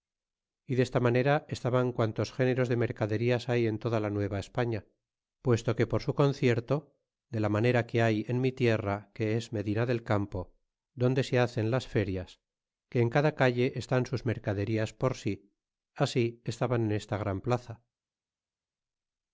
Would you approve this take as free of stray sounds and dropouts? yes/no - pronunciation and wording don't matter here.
yes